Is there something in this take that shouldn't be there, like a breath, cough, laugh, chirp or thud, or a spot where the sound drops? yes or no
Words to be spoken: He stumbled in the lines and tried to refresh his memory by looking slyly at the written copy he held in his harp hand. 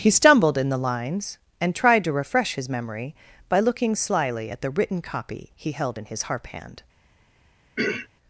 yes